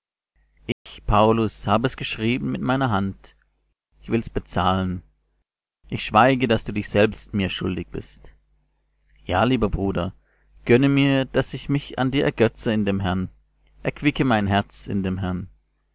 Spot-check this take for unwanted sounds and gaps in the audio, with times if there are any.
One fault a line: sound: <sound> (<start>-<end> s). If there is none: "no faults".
sound: dropout (0.7-0.9 s)